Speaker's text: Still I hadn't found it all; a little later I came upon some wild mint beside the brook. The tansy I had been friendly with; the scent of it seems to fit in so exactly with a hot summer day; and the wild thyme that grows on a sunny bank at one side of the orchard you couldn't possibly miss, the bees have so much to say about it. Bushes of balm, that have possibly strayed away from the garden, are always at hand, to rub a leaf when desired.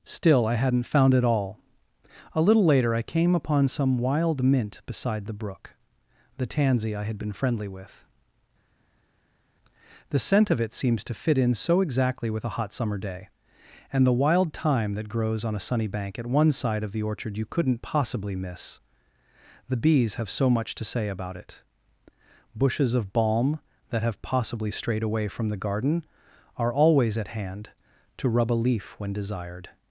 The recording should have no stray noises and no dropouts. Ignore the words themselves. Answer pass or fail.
pass